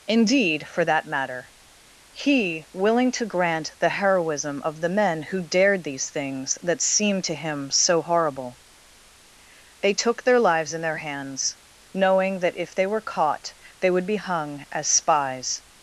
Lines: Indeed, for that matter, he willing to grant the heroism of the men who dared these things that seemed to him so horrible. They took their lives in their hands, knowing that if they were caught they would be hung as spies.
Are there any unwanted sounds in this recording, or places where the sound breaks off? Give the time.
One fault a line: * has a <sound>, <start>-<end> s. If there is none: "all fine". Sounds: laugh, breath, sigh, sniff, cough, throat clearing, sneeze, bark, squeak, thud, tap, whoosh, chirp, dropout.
all fine